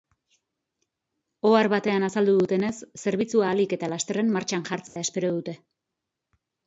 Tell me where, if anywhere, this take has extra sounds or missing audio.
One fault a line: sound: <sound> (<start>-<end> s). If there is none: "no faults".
sound: dropout (4.9-5.0 s)